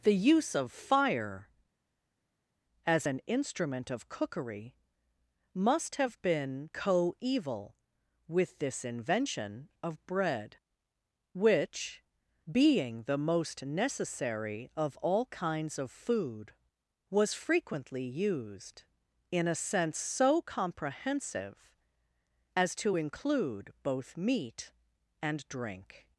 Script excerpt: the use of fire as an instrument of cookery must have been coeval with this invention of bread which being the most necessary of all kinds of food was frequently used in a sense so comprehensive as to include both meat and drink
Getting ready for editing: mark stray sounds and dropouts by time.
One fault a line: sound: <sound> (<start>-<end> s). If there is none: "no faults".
no faults